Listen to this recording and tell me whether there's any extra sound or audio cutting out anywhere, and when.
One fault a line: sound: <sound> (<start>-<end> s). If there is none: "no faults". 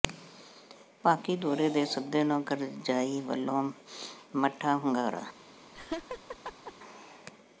sound: laugh (5.7-6.7 s)